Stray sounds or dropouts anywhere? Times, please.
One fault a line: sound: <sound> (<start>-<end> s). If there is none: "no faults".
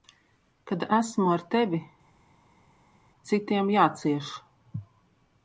no faults